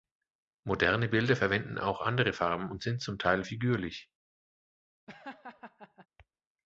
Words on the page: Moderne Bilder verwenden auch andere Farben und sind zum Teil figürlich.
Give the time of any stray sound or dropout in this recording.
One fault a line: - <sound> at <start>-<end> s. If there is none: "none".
- laugh at 5.1-6.1 s